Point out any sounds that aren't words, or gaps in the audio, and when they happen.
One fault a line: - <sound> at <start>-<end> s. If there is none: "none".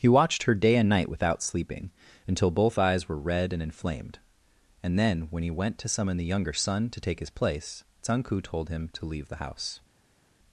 none